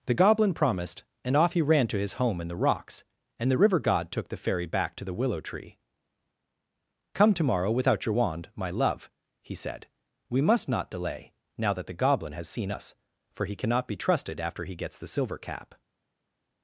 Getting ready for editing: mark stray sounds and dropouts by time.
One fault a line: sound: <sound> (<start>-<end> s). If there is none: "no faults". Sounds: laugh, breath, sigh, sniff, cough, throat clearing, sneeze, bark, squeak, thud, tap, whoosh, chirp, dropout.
no faults